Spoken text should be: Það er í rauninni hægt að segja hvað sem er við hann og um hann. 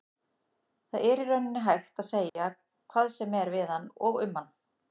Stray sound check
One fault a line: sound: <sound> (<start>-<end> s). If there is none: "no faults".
sound: dropout (2.3-2.4 s)